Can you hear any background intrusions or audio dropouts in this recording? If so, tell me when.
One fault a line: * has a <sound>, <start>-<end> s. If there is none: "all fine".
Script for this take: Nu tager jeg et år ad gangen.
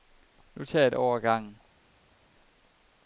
all fine